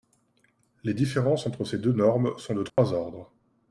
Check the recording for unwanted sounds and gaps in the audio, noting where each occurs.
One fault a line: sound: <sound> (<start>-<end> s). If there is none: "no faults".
sound: dropout (2.7-2.8 s)